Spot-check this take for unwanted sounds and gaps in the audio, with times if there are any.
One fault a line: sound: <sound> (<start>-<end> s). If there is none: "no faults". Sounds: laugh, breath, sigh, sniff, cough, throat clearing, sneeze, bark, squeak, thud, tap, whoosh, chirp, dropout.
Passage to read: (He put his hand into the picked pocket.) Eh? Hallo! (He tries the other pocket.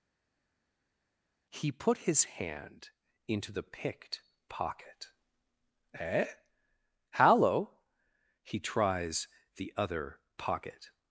no faults